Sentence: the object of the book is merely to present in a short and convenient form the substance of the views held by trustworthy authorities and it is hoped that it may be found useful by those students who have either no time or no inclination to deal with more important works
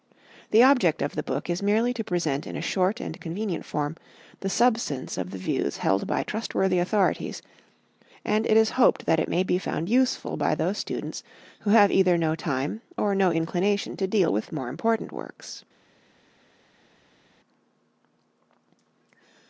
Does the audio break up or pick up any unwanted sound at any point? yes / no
no